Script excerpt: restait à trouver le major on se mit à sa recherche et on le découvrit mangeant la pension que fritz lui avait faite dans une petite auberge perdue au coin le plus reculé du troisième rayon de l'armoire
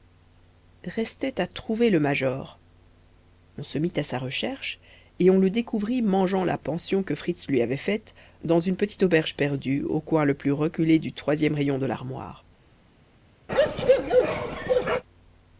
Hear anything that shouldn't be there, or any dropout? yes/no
yes